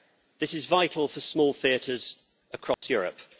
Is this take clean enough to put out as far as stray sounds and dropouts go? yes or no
no